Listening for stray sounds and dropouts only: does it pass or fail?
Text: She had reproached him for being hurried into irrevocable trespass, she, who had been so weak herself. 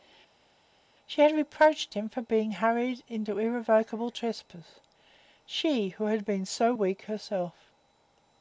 pass